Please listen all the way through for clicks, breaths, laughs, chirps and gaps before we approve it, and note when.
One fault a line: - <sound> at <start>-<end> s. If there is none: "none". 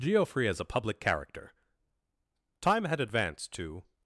none